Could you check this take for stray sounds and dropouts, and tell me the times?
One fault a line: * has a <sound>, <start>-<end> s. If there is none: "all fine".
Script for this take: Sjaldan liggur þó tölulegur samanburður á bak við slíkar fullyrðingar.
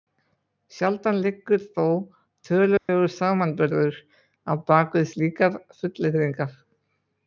* has a dropout, 2.8-2.9 s